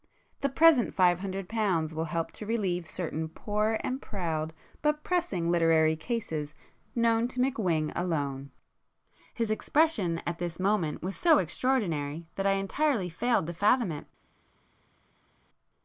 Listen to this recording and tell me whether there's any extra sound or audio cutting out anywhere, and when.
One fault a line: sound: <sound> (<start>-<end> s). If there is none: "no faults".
no faults